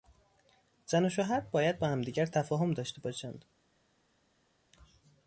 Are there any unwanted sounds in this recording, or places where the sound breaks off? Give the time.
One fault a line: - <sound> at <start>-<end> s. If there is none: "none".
none